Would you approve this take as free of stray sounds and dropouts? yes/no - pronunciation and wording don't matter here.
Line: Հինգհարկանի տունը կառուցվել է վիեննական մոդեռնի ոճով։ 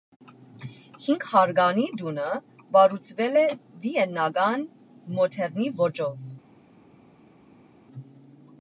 yes